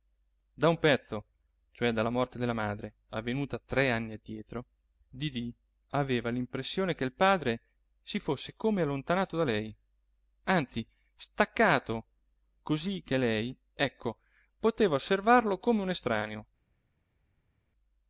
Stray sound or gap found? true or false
false